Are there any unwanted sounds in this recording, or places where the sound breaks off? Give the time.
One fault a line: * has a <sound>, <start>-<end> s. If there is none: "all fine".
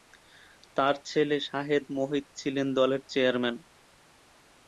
all fine